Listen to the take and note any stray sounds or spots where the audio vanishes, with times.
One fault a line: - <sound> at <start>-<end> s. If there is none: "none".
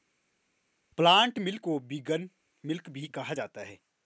none